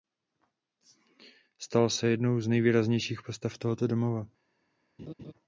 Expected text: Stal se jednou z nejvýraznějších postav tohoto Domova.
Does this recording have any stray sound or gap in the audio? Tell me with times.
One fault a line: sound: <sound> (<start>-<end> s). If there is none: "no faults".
sound: laugh (5.0-5.3 s)